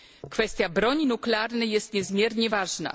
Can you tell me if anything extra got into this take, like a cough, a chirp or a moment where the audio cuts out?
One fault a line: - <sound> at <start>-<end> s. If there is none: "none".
none